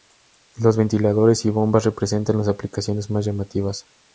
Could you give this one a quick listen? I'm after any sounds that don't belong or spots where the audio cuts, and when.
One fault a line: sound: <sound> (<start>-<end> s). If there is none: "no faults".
no faults